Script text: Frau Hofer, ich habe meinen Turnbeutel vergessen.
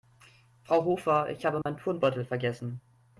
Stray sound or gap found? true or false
true